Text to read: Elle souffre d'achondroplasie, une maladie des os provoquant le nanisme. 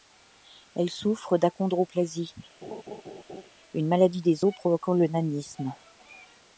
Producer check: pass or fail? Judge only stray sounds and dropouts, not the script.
fail